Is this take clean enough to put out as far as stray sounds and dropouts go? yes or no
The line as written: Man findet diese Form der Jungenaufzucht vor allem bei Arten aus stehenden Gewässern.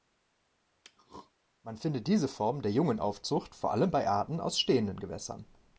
no